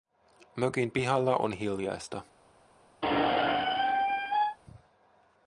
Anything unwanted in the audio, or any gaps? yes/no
yes